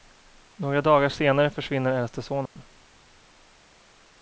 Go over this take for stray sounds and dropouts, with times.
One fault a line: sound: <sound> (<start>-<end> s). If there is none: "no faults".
sound: dropout (2.5-2.6 s)